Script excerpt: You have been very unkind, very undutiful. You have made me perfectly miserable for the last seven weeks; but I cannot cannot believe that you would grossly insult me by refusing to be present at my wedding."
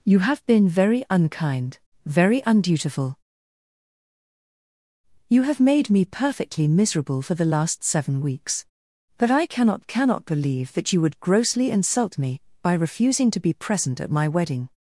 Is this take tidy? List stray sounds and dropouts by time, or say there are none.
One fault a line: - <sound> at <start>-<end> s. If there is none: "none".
none